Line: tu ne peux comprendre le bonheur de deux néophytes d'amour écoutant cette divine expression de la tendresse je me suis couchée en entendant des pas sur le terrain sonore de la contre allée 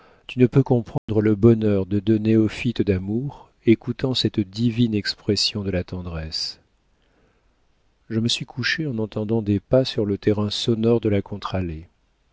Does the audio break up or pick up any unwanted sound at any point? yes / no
yes